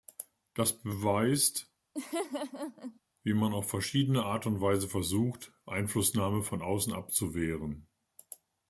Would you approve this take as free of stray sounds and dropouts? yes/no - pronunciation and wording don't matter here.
no